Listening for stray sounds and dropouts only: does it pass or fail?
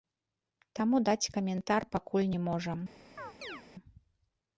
fail